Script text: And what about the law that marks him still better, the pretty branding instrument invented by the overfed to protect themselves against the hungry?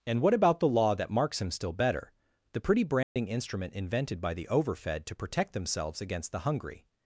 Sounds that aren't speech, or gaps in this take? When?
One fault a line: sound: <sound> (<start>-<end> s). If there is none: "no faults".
sound: dropout (3.0-3.2 s)